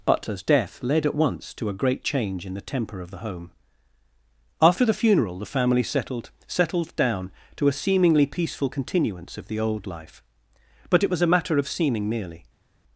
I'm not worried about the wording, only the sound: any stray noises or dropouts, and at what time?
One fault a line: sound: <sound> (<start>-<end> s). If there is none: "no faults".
no faults